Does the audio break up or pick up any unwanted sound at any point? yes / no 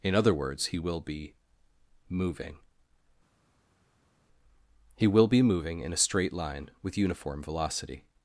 no